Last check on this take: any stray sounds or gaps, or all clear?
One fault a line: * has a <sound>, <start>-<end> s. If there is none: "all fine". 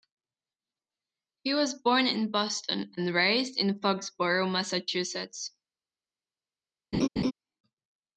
* has a laugh, 6.9-7.3 s